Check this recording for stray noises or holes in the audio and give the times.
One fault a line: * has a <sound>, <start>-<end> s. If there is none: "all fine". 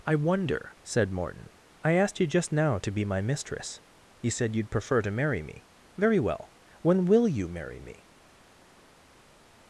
all fine